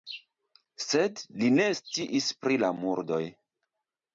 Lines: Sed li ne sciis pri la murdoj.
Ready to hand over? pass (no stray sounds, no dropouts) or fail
pass